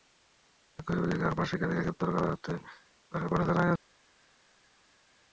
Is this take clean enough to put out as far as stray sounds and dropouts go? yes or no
yes